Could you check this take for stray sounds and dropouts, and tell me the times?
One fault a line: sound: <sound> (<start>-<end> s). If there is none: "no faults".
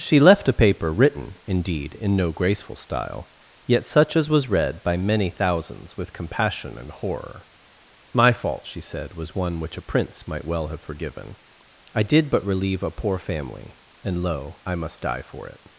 no faults